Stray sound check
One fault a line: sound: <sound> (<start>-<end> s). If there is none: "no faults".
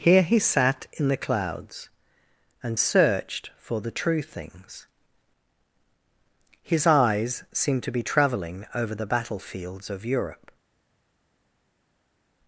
no faults